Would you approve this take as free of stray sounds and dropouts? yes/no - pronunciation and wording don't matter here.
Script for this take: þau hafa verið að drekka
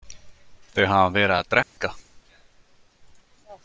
no